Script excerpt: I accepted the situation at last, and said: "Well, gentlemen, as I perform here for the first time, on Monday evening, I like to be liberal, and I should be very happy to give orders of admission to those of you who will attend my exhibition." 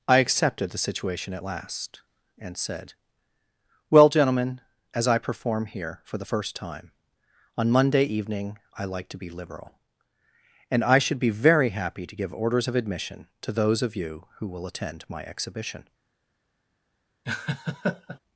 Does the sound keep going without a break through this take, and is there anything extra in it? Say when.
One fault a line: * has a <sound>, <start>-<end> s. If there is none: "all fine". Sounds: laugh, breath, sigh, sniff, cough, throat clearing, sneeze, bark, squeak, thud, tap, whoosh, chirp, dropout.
* has a laugh, 17.2-18.2 s